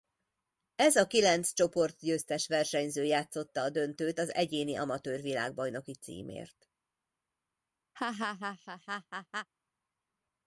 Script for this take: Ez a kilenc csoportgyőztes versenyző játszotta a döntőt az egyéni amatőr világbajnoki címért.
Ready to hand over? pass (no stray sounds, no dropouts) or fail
fail